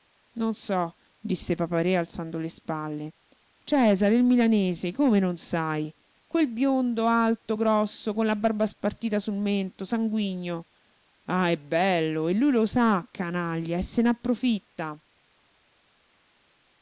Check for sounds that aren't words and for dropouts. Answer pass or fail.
pass